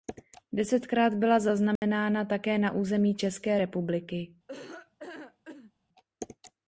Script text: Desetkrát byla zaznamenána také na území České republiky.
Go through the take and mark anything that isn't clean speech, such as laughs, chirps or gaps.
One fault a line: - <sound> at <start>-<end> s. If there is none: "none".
- dropout at 1.8-1.8 s
- laugh at 4.5-5.7 s